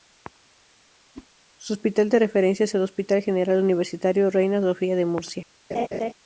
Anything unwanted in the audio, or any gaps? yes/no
yes